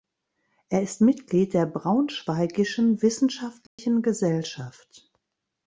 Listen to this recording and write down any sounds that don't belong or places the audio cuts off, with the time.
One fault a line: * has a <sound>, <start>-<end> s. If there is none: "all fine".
* has a dropout, 3.7-3.8 s